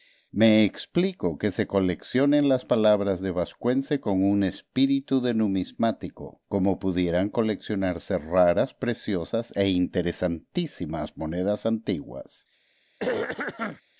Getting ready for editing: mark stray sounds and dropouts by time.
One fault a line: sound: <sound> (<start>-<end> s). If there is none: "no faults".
sound: throat clearing (13.0-13.8 s)